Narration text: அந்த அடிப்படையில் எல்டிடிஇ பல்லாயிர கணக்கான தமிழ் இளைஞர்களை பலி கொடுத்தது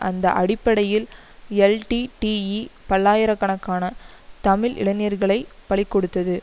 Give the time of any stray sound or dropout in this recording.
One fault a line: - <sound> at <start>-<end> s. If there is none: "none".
none